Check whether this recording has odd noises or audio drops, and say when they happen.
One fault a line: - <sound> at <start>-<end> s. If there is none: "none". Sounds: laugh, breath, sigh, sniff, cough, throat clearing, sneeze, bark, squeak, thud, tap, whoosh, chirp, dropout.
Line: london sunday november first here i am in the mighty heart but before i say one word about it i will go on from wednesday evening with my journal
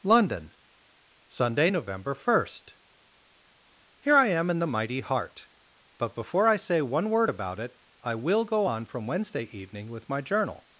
none